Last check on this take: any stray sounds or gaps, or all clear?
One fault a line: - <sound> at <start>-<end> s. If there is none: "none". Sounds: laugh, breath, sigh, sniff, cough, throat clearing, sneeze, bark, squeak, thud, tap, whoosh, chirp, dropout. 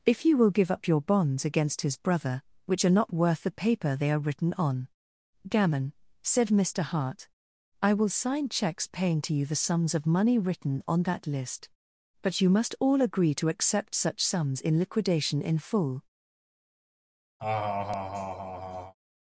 - laugh at 17.4-18.9 s